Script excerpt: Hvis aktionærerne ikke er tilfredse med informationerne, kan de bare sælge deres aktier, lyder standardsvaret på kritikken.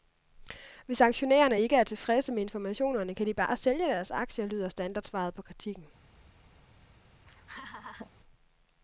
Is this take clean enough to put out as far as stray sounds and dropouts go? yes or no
no